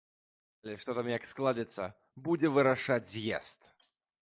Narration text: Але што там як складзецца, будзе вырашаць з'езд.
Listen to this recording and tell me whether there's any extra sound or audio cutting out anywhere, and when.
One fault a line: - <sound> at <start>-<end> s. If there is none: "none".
none